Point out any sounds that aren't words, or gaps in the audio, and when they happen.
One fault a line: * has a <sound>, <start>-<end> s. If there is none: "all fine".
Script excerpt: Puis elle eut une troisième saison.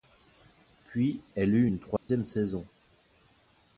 * has a dropout, 2.0-2.1 s